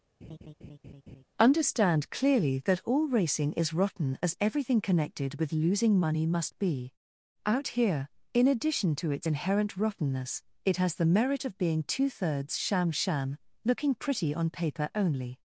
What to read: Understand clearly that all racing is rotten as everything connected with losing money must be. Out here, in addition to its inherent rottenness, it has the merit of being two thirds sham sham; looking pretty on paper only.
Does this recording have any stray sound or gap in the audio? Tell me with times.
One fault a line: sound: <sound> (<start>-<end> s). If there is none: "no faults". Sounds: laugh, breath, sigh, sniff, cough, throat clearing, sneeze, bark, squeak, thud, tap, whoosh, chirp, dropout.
sound: laugh (0.2-1.2 s)